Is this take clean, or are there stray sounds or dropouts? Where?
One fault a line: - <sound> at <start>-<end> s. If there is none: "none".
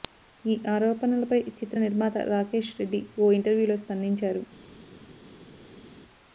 none